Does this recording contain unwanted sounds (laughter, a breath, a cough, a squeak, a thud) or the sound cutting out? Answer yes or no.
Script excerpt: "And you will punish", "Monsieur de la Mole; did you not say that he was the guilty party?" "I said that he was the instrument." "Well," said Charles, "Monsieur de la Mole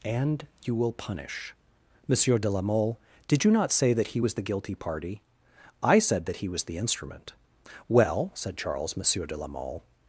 no